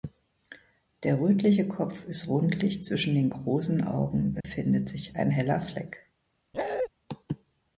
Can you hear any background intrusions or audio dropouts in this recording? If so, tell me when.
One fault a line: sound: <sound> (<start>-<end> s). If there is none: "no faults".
sound: dropout (4.4-4.4 s)
sound: bark (6.5-6.9 s)